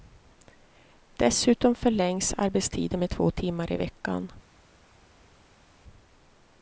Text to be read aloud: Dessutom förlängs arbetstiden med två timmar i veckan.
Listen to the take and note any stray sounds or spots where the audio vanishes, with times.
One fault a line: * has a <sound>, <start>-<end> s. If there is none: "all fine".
all fine